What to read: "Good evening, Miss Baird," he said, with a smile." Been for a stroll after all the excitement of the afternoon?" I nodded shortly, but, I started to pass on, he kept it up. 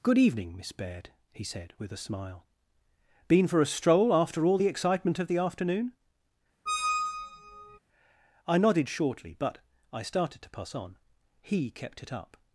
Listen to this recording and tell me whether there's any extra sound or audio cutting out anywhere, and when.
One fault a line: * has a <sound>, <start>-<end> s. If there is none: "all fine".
* has a squeak, 6.7-7.8 s